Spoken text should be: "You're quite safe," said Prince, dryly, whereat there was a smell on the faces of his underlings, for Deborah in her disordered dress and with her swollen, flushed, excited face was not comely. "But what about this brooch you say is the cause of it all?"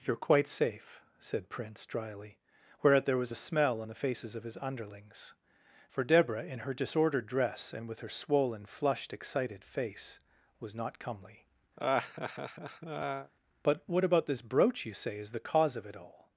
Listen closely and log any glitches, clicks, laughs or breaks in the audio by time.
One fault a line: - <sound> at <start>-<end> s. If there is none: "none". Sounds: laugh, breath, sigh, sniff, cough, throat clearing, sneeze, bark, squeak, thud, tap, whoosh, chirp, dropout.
- laugh at 11.8-13.3 s